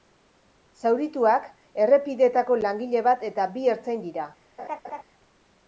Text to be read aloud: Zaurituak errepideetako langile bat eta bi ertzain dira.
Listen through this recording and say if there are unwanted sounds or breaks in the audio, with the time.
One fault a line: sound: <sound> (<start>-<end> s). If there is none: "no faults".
sound: laugh (4.6-5.0 s)